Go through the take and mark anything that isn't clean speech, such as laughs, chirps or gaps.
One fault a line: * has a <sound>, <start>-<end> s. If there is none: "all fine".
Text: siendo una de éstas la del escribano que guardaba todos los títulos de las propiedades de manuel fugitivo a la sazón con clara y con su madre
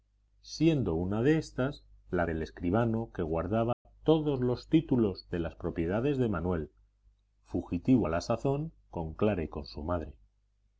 * has a dropout, 3.7-3.9 s